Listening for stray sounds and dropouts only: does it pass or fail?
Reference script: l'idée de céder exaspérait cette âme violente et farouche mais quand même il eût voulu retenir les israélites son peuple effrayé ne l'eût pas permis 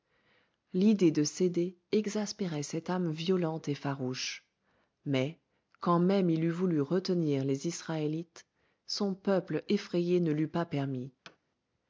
fail